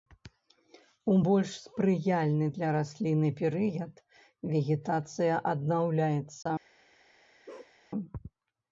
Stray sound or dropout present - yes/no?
yes